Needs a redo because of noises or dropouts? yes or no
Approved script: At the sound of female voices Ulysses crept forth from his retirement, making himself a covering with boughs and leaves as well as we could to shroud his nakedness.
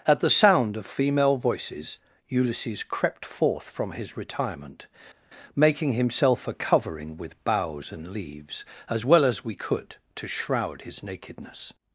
no